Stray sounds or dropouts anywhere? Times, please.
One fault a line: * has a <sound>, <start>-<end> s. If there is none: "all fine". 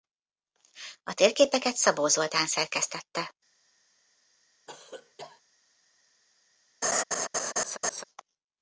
* has a cough, 4.7-5.4 s
* has a laugh, 6.8-8.0 s